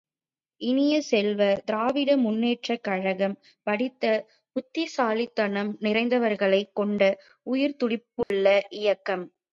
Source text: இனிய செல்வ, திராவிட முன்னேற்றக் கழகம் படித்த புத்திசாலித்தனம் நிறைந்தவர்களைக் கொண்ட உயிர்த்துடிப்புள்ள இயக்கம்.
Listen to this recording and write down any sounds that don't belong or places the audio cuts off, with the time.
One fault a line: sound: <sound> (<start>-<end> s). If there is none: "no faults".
sound: dropout (8.2-8.3 s)